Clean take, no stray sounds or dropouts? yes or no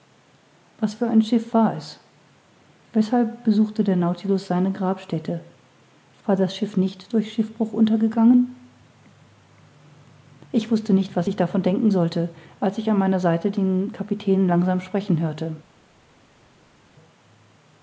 yes